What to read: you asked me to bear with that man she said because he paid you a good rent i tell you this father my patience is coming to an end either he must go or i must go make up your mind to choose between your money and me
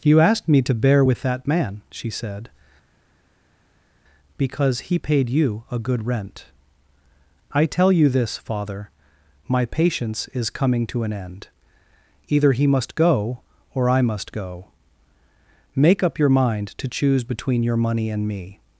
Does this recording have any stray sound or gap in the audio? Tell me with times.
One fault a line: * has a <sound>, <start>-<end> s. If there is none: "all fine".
all fine